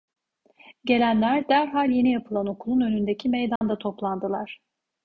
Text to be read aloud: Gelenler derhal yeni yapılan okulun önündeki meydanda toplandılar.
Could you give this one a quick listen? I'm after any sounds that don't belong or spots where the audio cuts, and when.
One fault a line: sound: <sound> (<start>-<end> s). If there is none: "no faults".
sound: dropout (3.6-3.6 s)